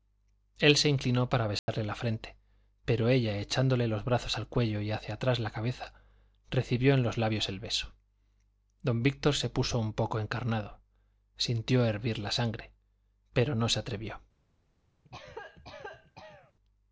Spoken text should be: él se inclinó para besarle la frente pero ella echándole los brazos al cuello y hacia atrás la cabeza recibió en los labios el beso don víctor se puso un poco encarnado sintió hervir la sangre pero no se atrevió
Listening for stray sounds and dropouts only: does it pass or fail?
fail